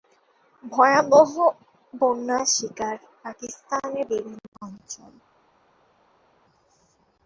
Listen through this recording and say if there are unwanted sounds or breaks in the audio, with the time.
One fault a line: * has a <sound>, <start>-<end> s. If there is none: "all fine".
all fine